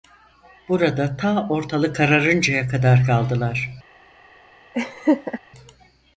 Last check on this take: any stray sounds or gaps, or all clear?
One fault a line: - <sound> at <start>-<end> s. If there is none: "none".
- laugh at 4.7-5.4 s